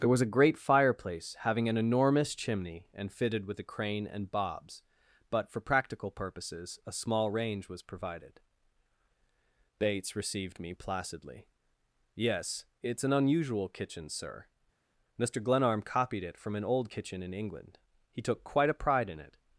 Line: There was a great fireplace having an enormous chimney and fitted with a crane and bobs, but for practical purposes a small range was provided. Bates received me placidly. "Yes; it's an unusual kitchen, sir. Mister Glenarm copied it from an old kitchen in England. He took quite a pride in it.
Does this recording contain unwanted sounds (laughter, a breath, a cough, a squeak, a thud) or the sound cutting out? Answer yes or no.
no